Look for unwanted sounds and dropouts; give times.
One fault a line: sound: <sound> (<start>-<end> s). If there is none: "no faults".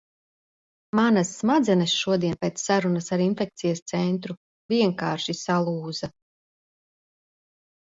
no faults